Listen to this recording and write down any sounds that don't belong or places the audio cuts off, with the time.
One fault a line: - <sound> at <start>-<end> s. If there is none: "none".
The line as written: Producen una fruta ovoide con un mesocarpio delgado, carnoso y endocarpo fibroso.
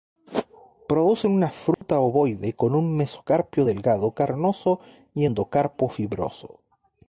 - dropout at 1.7-1.8 s